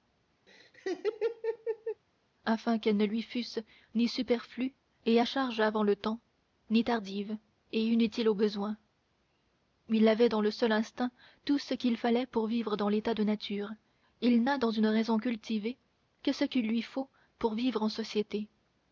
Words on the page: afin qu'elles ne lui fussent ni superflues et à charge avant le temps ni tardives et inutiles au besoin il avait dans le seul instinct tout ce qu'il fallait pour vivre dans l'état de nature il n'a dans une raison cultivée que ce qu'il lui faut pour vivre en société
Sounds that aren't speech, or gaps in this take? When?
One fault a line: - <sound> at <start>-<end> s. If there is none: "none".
- laugh at 0.5-2.0 s